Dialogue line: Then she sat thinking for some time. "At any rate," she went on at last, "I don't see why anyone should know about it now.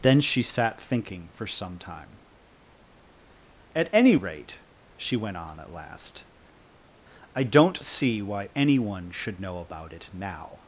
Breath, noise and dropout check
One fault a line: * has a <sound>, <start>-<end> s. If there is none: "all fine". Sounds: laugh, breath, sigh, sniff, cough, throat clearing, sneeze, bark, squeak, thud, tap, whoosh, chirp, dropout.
all fine